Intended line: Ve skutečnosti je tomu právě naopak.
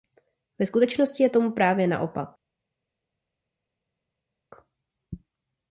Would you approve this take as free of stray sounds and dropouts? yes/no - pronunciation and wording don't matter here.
yes